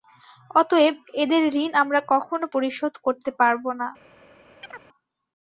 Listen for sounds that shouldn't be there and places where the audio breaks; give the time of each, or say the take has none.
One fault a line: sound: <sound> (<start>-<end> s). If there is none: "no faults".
sound: chirp (4.6-4.9 s)